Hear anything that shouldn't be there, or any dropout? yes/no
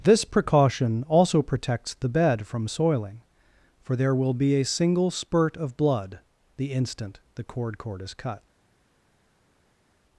no